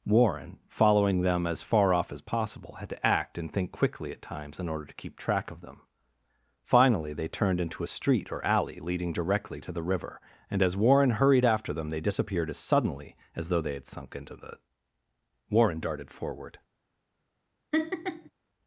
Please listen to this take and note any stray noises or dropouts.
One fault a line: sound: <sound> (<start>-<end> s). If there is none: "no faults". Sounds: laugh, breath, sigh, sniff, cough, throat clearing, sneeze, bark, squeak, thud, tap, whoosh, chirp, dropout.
sound: laugh (17.7-18.3 s)